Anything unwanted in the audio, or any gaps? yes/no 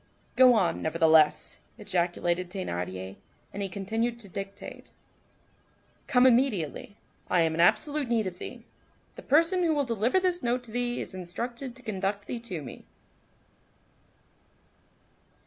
no